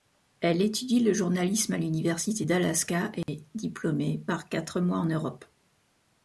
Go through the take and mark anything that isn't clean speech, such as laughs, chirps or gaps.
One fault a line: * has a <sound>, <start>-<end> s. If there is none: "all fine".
* has a dropout, 3.2-3.3 s